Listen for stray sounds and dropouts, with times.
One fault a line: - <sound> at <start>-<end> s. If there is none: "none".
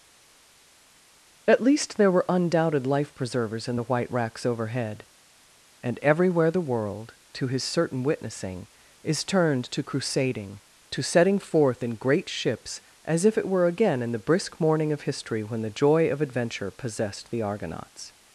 none